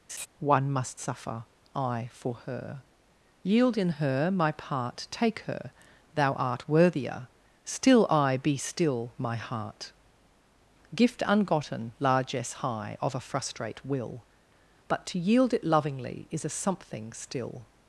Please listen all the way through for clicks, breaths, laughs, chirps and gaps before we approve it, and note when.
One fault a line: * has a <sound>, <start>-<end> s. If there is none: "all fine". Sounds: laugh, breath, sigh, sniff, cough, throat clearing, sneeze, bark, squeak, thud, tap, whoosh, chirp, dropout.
* has a laugh, 0.1-0.3 s